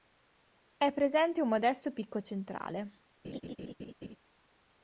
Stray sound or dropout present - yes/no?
yes